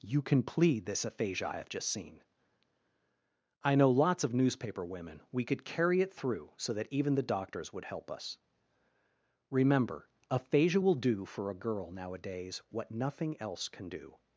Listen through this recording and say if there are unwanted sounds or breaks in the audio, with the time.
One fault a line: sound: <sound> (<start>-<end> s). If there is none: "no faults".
no faults